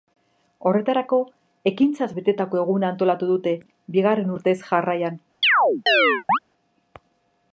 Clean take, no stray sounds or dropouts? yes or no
no